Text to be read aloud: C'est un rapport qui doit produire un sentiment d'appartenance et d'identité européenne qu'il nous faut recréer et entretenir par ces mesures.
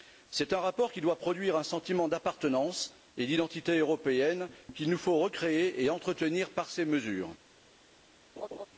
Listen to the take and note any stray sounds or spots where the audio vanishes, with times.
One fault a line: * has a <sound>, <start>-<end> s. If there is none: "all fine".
* has a laugh, 8.4-8.7 s